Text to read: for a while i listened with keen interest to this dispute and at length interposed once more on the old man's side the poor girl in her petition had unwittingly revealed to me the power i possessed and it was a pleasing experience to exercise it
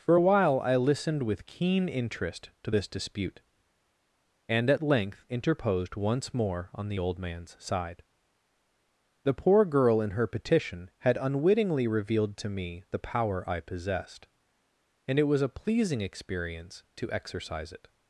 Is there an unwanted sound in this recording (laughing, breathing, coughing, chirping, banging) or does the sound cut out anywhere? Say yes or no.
no